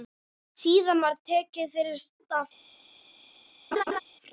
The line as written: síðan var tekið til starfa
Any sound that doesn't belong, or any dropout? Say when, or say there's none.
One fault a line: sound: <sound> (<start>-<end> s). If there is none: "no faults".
sound: laugh (3.7-4.0 s)